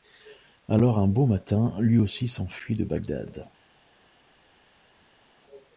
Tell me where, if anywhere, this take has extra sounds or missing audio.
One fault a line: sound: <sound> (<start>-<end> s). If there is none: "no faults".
no faults